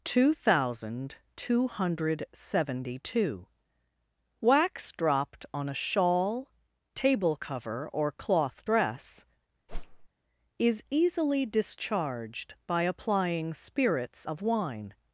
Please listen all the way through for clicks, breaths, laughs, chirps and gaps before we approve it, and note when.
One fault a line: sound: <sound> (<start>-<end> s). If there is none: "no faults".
sound: whoosh (9.7-10.1 s)